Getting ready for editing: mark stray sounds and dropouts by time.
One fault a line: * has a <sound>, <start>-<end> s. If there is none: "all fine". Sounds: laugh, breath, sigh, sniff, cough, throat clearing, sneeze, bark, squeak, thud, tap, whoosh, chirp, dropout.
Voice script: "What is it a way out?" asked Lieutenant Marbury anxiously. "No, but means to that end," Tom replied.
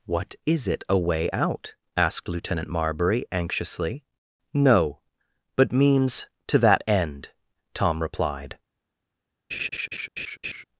* has a laugh, 9.5-10.6 s